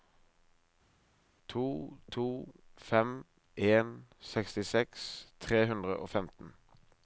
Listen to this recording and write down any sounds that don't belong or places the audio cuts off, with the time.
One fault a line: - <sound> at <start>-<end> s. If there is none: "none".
none